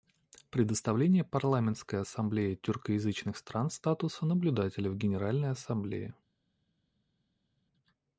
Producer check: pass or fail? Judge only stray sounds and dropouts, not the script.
pass